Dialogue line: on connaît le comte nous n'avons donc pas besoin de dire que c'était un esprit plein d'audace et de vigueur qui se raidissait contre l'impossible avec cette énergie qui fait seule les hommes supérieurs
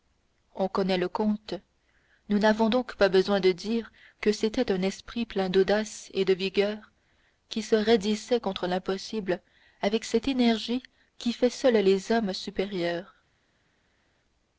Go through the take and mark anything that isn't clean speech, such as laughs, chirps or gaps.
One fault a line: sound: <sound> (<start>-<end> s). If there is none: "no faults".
no faults